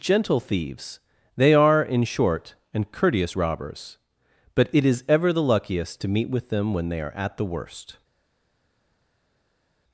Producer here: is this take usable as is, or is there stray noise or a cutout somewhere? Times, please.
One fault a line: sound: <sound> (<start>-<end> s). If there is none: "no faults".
no faults